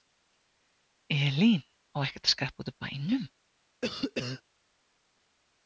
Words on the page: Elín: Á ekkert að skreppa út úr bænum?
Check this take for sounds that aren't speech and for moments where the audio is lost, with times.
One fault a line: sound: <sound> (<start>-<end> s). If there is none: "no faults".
sound: cough (3.8-4.4 s)